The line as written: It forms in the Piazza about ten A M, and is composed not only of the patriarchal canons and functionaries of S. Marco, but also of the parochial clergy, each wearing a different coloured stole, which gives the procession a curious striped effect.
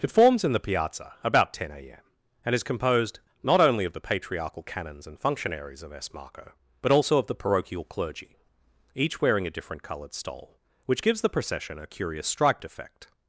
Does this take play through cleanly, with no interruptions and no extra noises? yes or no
yes